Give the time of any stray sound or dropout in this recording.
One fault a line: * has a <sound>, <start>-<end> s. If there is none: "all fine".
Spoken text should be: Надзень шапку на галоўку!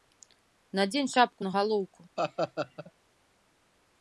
* has a laugh, 2.2-2.9 s